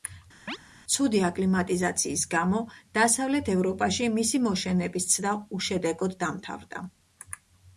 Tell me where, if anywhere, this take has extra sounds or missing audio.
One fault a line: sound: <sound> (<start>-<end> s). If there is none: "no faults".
sound: chirp (0.5-0.6 s)